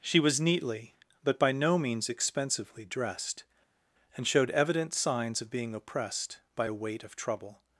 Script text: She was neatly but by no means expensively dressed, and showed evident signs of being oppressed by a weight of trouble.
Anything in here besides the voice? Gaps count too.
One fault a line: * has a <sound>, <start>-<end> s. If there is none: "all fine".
all fine